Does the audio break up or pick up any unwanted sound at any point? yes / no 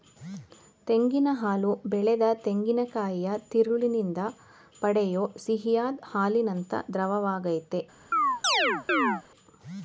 yes